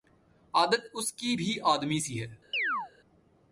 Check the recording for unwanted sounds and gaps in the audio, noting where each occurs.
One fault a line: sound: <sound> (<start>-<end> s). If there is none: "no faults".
sound: chirp (2.5-2.9 s)